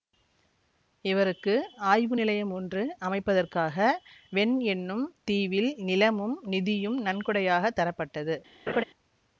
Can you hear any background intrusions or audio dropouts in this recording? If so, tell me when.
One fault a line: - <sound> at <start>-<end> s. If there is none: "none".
- laugh at 8.7-8.8 s